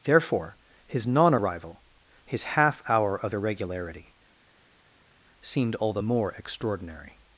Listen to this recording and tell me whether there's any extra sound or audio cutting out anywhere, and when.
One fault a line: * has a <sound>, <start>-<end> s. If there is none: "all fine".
all fine